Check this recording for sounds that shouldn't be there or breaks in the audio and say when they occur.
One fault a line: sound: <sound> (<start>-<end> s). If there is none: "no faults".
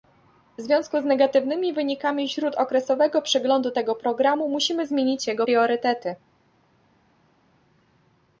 no faults